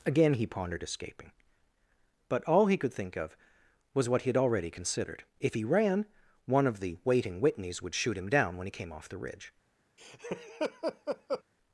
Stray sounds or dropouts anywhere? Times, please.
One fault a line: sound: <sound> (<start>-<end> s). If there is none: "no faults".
sound: laugh (10.0-11.4 s)